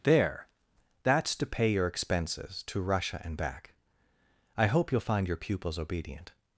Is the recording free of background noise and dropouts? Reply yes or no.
yes